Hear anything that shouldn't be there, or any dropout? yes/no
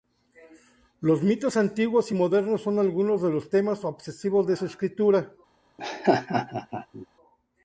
yes